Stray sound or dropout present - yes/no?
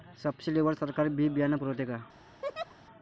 yes